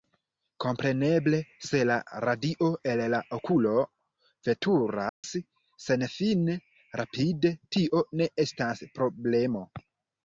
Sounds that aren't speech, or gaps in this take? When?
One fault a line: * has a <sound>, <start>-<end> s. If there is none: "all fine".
* has a dropout, 5.1-5.2 s